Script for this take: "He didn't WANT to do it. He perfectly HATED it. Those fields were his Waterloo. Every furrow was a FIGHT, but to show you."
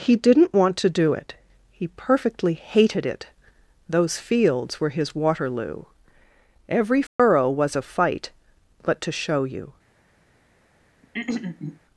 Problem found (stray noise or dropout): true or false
true